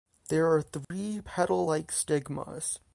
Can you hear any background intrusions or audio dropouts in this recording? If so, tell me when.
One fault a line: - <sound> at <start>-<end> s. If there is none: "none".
- dropout at 0.8-0.9 s